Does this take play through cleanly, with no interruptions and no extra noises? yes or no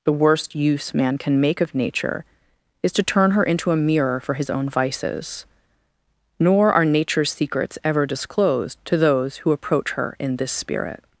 yes